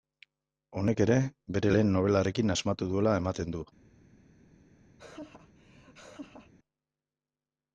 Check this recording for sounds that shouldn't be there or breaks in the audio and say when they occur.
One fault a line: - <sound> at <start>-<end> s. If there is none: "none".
- laugh at 5.0-6.5 s